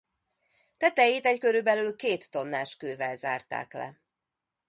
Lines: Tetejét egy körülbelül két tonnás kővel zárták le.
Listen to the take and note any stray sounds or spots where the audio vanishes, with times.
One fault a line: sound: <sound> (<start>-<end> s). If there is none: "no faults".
no faults